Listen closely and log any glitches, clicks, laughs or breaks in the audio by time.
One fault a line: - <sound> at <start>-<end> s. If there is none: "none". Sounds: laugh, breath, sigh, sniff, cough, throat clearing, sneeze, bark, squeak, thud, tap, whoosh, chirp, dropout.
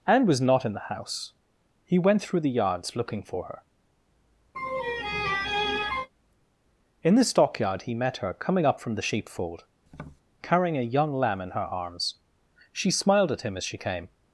- laugh at 4.5-6.1 s
- tap at 9.9-10.2 s